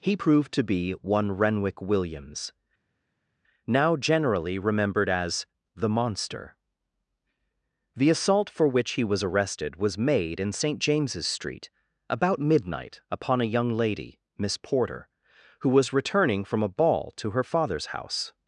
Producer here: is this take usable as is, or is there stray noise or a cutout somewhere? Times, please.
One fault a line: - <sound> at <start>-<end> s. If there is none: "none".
none